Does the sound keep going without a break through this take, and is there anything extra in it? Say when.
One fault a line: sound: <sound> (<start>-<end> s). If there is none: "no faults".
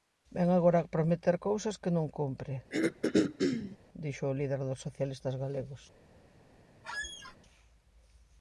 sound: throat clearing (2.7-3.8 s)
sound: squeak (6.8-7.4 s)